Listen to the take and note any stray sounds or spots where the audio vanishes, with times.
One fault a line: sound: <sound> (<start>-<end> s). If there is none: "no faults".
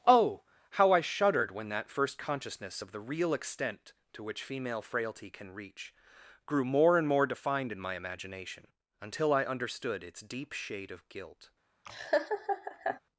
sound: laugh (11.9-13.0 s)